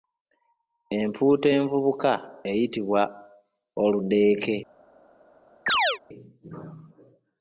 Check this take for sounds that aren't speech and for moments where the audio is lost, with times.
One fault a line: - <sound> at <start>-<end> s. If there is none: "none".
- chirp at 5.7-6.0 s